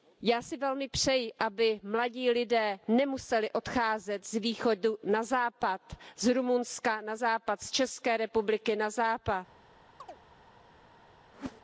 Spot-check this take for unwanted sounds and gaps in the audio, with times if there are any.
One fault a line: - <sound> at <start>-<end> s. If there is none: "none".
- chirp at 10.0-10.2 s
- whoosh at 11.3-11.6 s